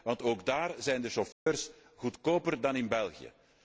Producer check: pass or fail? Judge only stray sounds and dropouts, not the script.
fail